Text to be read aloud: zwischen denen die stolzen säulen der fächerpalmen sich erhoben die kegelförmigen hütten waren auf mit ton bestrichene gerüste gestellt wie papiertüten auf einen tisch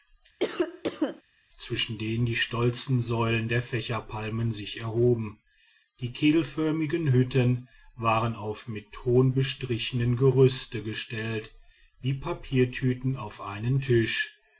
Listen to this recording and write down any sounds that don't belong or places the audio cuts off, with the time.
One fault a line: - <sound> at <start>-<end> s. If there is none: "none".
- cough at 0.4-1.2 s